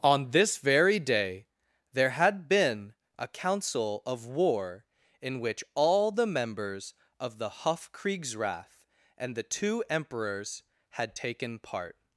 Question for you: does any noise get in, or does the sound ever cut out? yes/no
no